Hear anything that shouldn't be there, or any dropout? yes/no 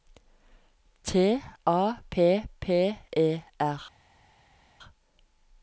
no